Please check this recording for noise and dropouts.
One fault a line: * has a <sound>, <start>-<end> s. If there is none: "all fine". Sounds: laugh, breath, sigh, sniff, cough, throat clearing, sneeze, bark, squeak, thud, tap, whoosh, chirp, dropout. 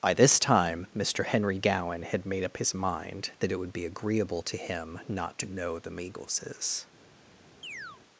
* has a chirp, 7.6-8.0 s